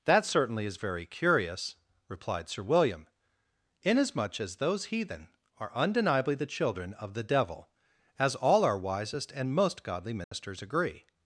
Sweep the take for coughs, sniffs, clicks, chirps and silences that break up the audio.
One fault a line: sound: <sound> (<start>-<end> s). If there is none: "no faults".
sound: dropout (10.2-10.3 s)